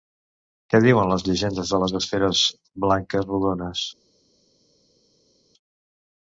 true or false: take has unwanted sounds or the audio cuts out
false